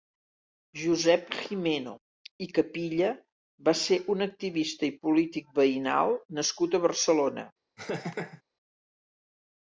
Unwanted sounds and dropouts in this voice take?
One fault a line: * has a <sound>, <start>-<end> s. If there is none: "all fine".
* has a laugh, 7.8-8.4 s